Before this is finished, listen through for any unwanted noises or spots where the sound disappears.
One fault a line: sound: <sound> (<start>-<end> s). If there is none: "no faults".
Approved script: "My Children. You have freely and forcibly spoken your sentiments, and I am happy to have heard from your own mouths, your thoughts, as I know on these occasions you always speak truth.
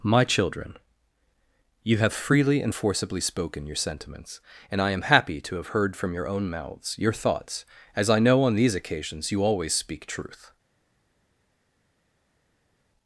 no faults